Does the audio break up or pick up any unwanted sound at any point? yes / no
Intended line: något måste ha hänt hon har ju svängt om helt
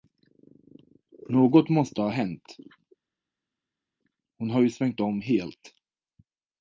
no